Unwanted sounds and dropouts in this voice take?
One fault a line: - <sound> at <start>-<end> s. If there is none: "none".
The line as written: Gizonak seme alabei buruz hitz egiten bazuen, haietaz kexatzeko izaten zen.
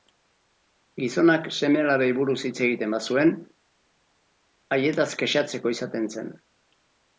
none